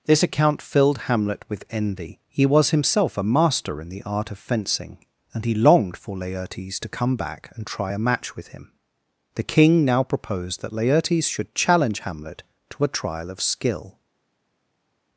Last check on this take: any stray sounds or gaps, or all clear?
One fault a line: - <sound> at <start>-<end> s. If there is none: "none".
none